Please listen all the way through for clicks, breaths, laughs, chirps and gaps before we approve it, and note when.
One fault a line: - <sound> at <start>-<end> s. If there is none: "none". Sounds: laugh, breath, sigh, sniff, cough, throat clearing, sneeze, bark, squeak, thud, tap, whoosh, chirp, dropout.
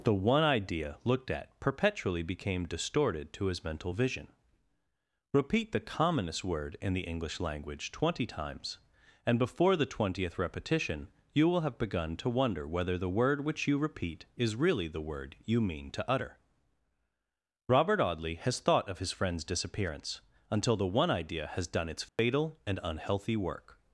- dropout at 22.1-22.2 s